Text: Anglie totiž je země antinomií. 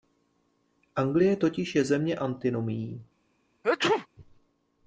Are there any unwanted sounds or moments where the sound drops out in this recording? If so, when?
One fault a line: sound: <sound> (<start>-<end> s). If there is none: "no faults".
sound: sneeze (3.6-4.1 s)